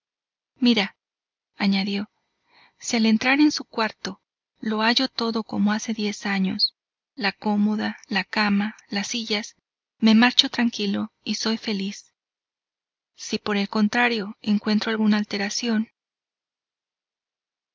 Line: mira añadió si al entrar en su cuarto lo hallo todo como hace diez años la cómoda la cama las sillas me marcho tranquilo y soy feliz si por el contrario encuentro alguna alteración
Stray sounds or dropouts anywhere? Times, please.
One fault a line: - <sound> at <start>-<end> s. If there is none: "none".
none